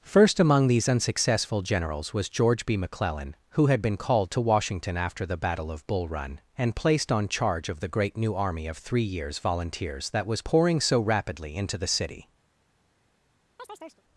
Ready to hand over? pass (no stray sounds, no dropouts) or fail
fail